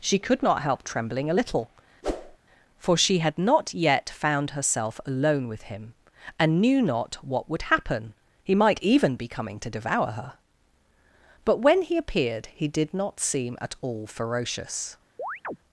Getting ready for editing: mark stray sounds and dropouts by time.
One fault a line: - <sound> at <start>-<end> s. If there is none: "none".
- whoosh at 2.0-2.4 s
- chirp at 15.2-15.6 s